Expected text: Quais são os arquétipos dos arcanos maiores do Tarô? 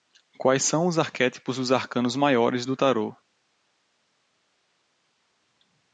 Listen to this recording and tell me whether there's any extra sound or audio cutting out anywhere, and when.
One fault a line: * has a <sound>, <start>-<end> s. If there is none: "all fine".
all fine